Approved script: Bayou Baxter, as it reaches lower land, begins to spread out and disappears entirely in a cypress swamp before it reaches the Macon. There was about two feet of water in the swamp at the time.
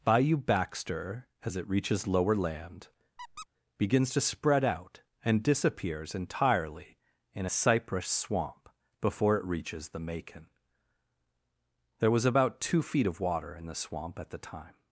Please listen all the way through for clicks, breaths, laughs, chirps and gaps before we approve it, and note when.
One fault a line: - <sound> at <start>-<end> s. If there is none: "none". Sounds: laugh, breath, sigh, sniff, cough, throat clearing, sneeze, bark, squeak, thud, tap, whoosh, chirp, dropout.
- squeak at 3.2-3.5 s